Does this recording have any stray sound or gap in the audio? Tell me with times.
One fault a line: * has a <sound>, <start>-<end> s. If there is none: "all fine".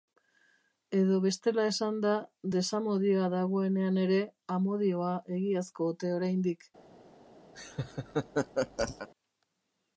* has a laugh, 7.5-9.1 s